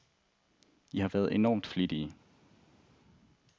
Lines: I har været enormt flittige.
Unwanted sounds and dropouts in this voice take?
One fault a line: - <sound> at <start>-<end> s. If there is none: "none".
none